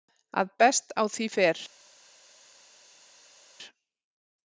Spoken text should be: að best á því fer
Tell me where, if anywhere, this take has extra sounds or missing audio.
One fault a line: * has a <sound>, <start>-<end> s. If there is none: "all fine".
all fine